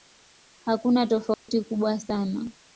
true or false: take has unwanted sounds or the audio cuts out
true